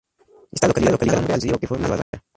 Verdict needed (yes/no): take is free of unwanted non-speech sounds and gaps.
no